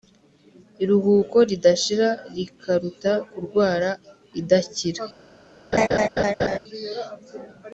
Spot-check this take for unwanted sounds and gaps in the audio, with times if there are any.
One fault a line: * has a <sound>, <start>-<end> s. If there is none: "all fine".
* has a laugh, 5.7-6.6 s